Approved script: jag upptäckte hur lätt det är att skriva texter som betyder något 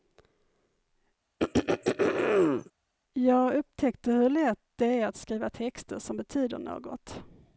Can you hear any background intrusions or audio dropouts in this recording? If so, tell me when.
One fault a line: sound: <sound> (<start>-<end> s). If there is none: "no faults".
sound: throat clearing (1.4-2.7 s)